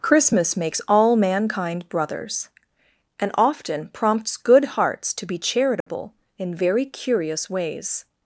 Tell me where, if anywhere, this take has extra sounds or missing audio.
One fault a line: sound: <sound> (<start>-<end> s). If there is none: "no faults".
sound: dropout (5.8-5.9 s)